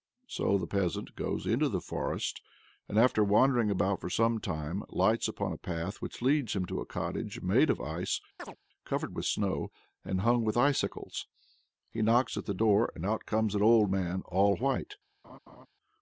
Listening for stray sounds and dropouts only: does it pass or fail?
fail